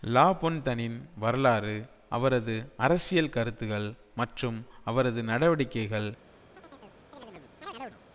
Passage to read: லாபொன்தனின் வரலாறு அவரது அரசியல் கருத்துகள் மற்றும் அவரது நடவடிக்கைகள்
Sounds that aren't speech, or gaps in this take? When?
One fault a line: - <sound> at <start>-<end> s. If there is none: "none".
- chirp at 6.6-8.0 s